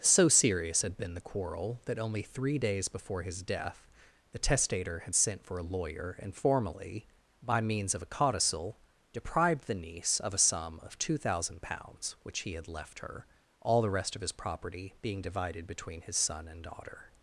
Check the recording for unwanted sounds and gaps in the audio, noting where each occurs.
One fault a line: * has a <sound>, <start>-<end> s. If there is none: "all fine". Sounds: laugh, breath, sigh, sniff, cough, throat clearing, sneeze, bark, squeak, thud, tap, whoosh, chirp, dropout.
all fine